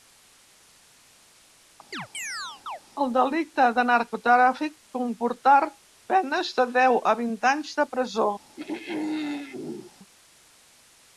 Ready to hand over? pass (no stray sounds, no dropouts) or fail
fail